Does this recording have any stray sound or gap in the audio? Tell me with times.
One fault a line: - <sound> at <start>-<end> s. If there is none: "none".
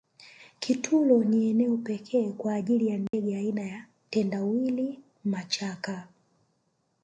- dropout at 3.1-3.1 s